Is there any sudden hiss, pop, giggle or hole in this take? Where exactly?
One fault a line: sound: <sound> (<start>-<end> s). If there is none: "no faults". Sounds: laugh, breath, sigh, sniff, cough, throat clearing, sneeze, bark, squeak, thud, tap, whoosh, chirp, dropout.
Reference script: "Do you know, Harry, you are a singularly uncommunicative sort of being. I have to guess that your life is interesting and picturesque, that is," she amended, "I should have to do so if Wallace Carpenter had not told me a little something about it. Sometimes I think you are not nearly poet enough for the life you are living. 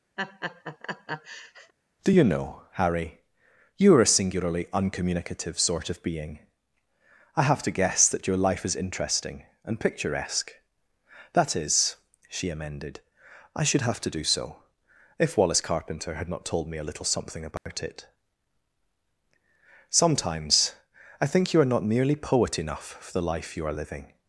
sound: laugh (0.2-1.7 s)
sound: dropout (17.6-17.7 s)